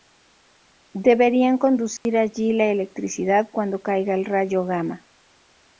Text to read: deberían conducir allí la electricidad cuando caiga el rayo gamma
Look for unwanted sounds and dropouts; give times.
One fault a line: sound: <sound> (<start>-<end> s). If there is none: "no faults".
sound: dropout (2.0-2.1 s)